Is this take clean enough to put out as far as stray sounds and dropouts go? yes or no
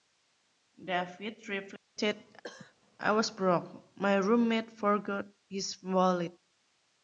no